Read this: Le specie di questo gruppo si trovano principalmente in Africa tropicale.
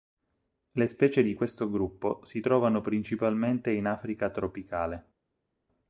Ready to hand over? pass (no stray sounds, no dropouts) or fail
pass